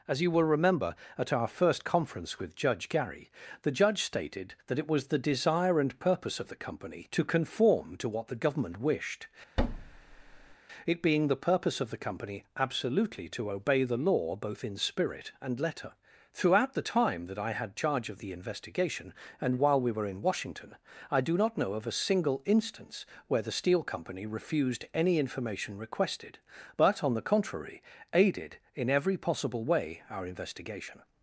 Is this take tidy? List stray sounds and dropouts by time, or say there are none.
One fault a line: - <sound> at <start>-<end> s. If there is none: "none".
- thud at 9.6-10.6 s